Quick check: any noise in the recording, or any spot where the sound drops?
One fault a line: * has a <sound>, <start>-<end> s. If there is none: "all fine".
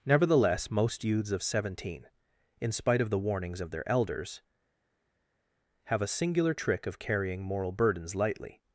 all fine